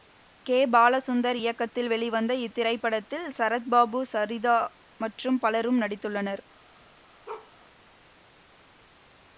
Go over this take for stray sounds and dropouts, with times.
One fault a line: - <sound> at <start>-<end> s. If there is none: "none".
- bark at 7.3-7.5 s